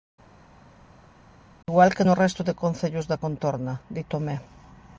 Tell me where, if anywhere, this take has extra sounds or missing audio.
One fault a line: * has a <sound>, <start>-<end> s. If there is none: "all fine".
all fine